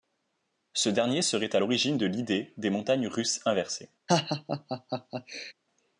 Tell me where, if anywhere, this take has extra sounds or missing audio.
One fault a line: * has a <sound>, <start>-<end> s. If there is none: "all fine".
* has a laugh, 4.1-5.5 s